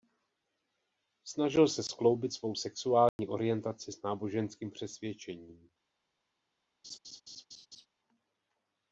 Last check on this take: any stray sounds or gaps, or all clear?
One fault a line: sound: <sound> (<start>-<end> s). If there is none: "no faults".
sound: dropout (3.1-3.2 s)
sound: laugh (6.8-7.9 s)